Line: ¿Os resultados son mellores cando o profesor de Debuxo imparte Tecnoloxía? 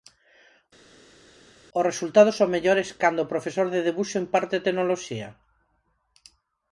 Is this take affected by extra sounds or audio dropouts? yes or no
no